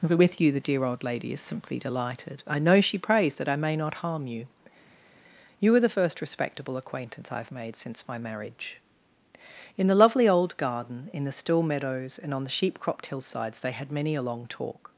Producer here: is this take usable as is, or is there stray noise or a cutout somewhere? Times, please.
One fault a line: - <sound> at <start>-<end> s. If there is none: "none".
none